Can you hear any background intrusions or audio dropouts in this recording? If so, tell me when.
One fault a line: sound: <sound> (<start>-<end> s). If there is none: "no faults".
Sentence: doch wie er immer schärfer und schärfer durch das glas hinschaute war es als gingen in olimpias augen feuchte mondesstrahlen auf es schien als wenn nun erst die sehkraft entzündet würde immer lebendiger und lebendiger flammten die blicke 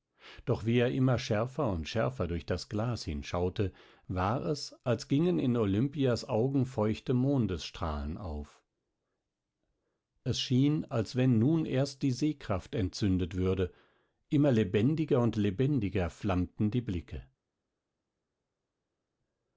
no faults